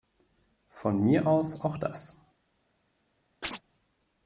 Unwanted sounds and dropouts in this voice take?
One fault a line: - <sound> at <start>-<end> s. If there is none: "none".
- chirp at 3.4-3.6 s